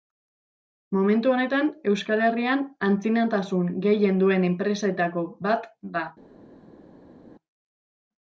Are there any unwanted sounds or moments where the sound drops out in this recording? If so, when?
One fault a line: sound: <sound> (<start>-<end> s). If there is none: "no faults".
no faults